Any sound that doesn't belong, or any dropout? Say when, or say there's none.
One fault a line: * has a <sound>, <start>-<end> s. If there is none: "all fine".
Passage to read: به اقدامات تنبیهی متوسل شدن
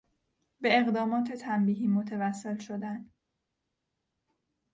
all fine